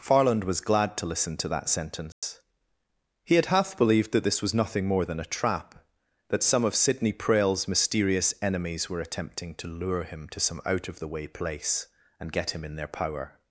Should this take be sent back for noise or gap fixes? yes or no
yes